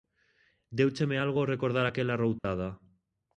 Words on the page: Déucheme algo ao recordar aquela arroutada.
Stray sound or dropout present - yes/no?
yes